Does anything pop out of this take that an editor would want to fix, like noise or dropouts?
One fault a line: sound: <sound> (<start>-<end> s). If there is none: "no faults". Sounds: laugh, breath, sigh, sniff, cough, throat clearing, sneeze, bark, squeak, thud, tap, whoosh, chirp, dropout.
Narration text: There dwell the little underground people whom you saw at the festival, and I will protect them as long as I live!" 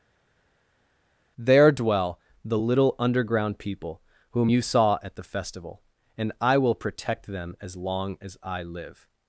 no faults